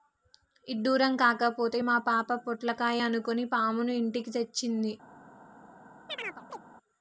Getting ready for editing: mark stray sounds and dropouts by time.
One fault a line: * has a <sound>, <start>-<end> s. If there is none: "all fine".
* has a chirp, 6.1-6.6 s